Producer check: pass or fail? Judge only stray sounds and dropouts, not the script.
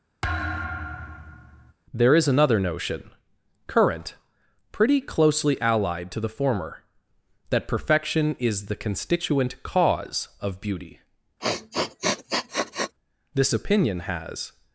fail